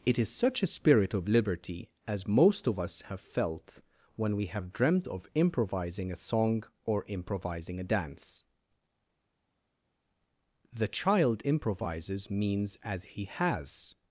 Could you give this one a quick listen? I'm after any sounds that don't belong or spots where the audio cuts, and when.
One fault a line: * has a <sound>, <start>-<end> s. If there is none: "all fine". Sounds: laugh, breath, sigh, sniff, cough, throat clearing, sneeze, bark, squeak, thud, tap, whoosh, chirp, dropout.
all fine